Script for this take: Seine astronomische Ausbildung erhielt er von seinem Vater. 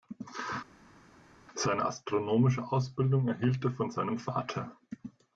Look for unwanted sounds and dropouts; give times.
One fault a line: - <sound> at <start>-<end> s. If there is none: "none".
none